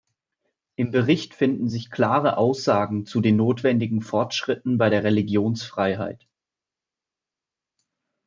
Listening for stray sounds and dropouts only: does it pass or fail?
pass